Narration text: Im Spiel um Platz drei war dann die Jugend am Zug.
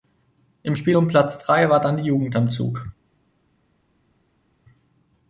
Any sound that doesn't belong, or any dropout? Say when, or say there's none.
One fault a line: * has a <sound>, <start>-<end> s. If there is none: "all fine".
all fine